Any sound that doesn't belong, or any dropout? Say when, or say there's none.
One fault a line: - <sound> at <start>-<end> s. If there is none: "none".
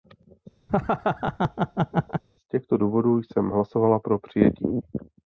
- laugh at 0.7-2.2 s